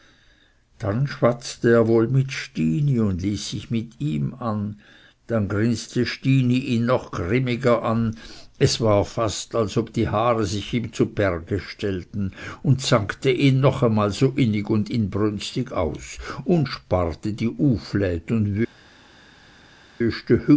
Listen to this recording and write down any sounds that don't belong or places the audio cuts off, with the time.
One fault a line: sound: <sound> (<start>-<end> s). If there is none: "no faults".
no faults